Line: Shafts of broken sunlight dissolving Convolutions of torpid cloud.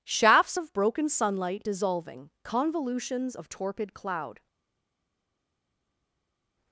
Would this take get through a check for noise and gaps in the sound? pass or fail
pass